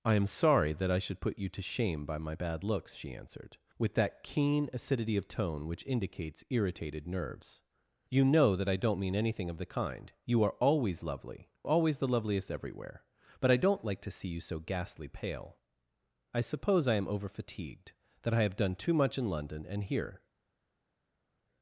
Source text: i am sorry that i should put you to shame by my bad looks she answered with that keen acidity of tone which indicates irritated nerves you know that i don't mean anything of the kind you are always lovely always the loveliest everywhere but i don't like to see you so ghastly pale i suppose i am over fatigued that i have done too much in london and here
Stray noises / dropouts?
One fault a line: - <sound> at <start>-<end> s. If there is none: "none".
none